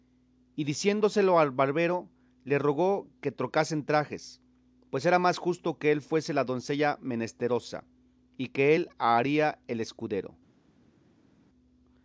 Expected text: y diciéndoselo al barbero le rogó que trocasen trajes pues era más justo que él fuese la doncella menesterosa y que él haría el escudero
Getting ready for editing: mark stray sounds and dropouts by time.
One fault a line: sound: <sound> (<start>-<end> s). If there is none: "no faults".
no faults